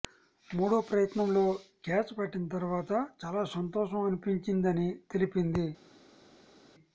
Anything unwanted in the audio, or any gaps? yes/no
no